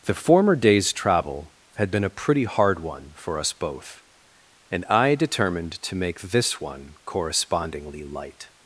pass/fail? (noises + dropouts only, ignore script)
pass